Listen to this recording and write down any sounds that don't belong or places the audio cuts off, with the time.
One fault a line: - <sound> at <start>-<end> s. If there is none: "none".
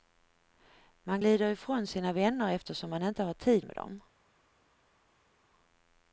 none